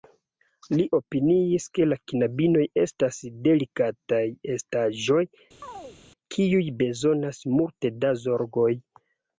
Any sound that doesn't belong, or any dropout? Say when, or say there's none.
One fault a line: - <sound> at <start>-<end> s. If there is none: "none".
- chirp at 5.6-6.0 s